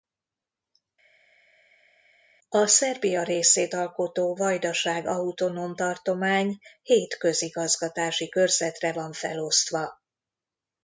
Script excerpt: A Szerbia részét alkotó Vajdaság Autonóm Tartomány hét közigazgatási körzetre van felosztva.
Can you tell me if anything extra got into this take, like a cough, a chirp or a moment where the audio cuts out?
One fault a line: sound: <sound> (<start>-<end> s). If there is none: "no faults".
no faults